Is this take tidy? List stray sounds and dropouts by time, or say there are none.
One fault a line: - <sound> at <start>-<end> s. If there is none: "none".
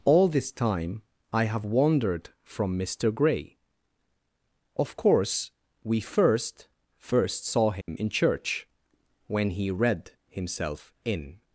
- dropout at 7.8-7.9 s